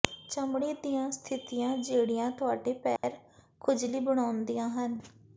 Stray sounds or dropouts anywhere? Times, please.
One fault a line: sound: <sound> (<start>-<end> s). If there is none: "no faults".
sound: dropout (3.0-3.0 s)